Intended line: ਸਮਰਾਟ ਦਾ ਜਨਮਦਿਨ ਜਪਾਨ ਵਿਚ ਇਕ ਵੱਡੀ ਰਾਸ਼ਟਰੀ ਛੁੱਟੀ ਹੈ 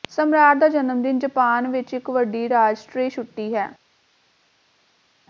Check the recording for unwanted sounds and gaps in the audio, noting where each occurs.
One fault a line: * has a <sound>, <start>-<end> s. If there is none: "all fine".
all fine